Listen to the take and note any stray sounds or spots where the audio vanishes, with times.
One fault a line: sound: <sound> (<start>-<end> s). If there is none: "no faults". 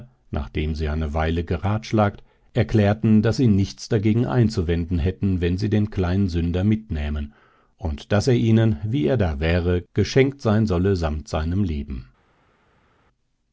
no faults